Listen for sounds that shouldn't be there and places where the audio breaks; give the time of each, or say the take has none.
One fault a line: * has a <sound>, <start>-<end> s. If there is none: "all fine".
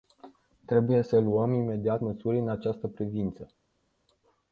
all fine